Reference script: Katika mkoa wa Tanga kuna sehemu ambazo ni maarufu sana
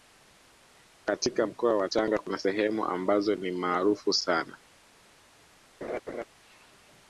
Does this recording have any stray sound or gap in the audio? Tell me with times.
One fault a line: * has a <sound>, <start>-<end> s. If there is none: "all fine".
* has a laugh, 5.8-6.3 s